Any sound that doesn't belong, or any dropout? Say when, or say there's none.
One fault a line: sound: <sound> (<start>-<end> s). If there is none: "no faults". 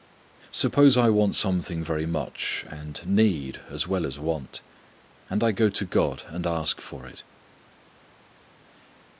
no faults